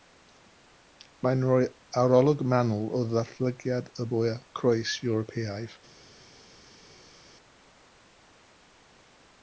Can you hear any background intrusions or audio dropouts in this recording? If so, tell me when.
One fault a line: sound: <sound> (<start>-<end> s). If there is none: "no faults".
no faults